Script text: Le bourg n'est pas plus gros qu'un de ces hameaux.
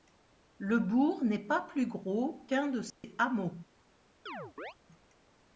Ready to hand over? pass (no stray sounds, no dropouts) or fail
fail